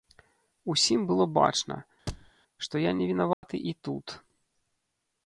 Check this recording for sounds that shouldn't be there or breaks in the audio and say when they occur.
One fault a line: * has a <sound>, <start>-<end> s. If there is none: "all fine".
* has a thud, 2.1-2.3 s
* has a dropout, 3.3-3.4 s